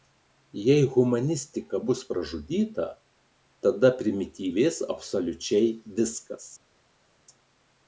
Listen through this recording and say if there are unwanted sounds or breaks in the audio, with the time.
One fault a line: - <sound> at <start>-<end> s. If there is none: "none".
none